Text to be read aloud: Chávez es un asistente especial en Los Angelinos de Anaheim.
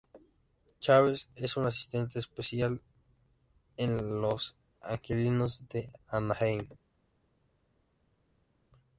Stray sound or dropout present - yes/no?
no